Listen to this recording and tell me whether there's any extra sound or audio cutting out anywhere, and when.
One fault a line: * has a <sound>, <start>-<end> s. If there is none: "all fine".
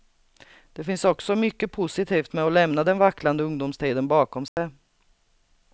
* has a dropout, 4.5-4.6 s